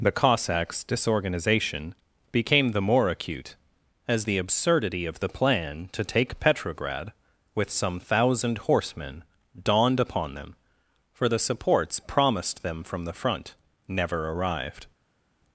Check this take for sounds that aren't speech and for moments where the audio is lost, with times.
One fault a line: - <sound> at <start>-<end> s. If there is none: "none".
none